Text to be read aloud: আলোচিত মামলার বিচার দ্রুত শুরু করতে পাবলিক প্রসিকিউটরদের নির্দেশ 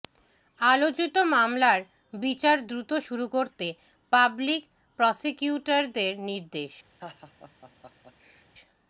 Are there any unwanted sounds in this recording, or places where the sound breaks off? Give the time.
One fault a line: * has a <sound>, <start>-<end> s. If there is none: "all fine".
* has a laugh, 7.0-8.4 s